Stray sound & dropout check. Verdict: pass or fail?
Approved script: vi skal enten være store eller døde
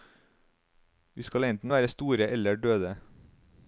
pass